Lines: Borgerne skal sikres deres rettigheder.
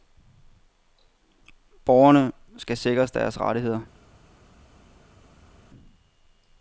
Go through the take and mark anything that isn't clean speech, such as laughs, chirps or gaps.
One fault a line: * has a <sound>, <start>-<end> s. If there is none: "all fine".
all fine